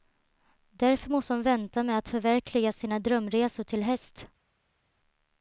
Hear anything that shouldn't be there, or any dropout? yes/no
no